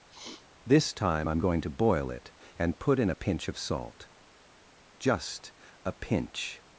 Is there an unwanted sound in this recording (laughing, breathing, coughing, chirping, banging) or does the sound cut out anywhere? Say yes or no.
yes